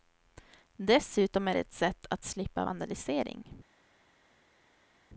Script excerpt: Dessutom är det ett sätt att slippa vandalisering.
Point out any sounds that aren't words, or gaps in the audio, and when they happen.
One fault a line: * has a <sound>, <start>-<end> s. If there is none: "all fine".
all fine